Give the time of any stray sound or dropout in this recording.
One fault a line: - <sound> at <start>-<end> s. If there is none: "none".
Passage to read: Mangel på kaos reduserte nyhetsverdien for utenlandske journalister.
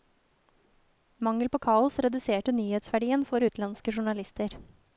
none